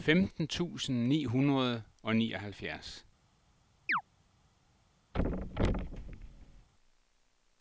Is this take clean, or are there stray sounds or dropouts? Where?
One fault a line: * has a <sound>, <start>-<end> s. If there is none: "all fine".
* has a chirp, 3.9-4.0 s
* has a thud, 5.1-6.7 s